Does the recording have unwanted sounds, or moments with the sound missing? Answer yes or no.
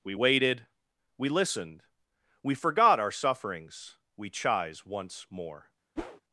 yes